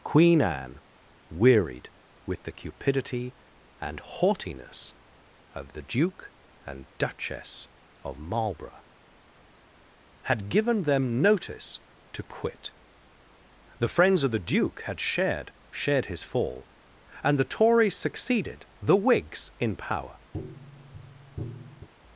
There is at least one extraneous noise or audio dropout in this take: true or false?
true